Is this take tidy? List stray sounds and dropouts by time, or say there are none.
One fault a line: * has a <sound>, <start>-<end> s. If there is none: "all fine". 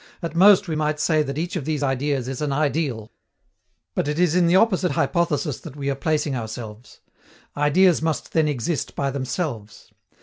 all fine